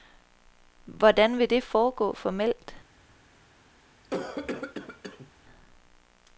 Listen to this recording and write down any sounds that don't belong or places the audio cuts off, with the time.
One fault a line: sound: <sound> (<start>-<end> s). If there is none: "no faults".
sound: cough (4.0-5.3 s)